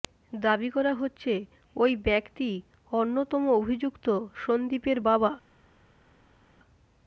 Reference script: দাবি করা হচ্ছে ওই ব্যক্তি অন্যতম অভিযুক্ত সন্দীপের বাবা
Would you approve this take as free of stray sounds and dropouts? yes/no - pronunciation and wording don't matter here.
yes